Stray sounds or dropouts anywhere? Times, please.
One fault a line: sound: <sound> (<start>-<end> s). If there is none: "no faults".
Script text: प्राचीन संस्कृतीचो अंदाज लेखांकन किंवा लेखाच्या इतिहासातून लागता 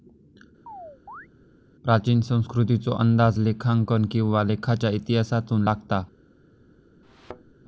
sound: chirp (0.7-1.3 s)
sound: thud (7.0-7.5 s)